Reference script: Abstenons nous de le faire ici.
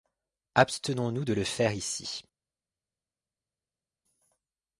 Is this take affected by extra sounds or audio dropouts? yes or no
no